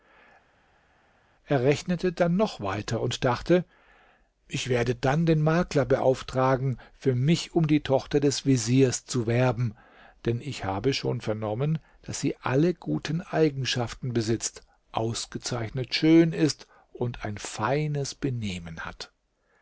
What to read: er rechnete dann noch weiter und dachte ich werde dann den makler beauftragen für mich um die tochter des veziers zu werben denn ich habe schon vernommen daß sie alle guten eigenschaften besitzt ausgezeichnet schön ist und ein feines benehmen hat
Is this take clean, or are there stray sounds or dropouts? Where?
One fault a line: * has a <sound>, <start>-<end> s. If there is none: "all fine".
all fine